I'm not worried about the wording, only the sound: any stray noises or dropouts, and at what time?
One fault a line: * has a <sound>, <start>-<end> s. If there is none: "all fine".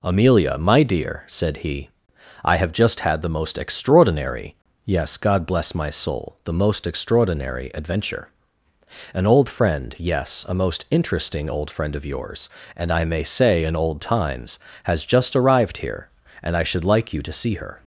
all fine